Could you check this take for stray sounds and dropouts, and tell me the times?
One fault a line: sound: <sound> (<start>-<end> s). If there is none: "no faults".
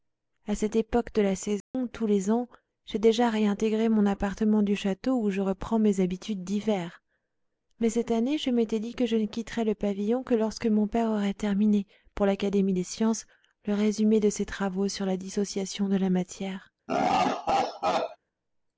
sound: dropout (1.6-1.7 s)
sound: laugh (16.9-18.2 s)